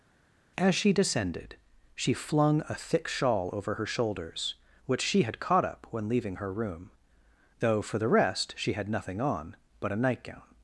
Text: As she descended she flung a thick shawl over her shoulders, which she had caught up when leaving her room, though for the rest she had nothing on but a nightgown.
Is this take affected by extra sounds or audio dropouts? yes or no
no